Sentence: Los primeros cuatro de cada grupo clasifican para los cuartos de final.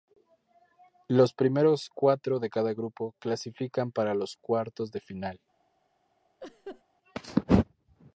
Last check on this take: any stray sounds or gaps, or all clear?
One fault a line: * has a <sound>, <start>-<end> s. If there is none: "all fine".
* has a laugh, 6.4-6.8 s